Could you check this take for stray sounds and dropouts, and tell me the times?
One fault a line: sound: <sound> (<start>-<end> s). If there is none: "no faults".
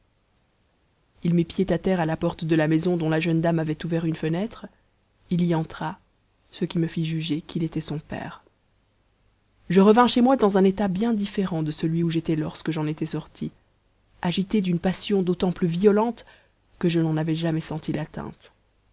no faults